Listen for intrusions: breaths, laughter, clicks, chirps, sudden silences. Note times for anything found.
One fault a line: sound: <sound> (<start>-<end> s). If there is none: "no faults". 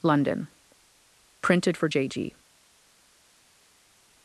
no faults